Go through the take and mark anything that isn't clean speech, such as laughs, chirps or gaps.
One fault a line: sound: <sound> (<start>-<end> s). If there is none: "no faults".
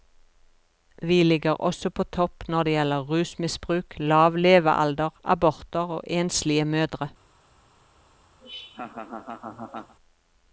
sound: laugh (8.4-9.9 s)